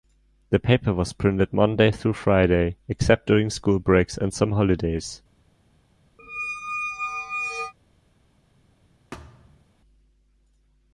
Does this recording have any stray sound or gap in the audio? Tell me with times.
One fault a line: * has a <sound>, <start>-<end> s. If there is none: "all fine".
* has a squeak, 6.2-7.7 s
* has a thud, 9.1-9.7 s